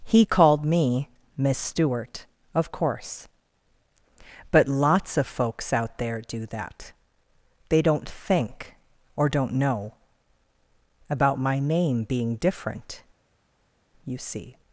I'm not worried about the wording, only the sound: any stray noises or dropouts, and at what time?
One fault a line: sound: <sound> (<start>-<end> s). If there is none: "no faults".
no faults